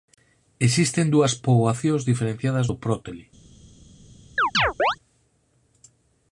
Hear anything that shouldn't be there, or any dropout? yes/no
yes